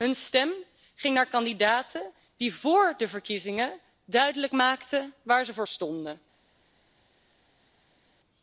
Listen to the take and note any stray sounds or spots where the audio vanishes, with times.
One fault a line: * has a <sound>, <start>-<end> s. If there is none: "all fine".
all fine